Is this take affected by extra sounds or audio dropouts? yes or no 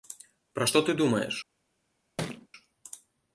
yes